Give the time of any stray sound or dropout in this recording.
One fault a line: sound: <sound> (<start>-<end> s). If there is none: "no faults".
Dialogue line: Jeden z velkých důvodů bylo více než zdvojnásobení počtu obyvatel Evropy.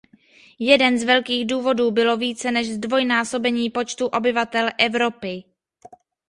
no faults